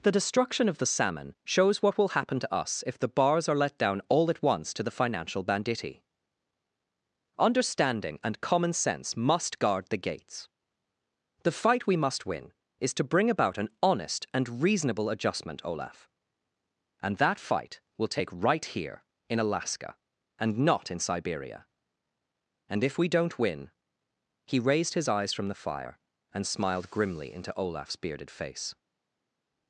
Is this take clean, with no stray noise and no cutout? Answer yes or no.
yes